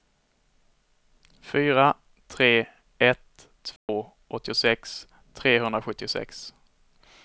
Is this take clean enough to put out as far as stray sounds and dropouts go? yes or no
no